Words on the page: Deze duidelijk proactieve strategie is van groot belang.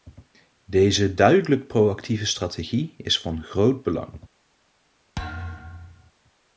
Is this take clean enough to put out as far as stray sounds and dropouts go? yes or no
no